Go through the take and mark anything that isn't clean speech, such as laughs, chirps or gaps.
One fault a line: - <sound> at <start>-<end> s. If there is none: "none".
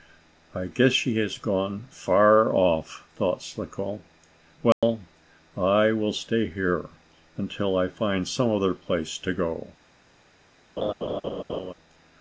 - dropout at 4.7-4.8 s
- laugh at 10.8-11.7 s